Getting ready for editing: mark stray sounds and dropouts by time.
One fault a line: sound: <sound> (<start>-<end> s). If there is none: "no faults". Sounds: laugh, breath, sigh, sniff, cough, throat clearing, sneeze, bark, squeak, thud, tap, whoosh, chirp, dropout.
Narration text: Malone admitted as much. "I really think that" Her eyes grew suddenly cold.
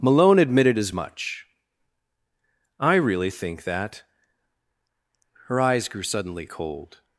no faults